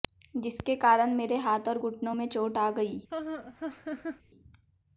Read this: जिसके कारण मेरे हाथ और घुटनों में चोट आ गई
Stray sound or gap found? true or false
true